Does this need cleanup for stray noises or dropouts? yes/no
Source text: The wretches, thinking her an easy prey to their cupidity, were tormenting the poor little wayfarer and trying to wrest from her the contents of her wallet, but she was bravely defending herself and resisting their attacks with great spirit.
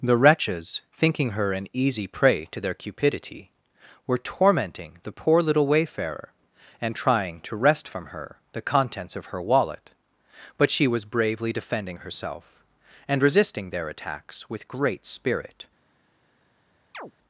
yes